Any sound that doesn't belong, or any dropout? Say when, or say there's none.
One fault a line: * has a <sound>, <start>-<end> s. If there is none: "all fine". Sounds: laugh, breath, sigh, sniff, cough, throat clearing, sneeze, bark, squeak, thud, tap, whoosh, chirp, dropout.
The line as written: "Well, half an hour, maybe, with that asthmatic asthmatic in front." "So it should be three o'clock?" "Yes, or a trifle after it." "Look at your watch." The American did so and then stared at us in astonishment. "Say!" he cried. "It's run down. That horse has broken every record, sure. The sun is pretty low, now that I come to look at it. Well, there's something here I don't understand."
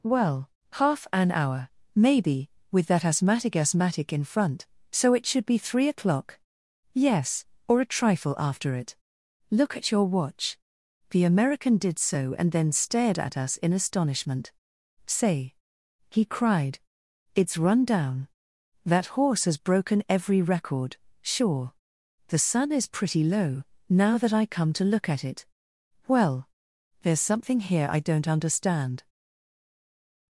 all fine